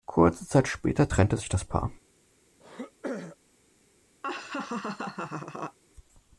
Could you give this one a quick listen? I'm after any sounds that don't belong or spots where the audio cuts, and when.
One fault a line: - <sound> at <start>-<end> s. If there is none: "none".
- throat clearing at 2.6-3.4 s
- laugh at 4.2-5.8 s